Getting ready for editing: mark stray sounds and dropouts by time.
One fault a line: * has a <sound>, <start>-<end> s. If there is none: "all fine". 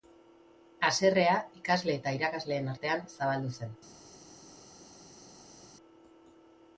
all fine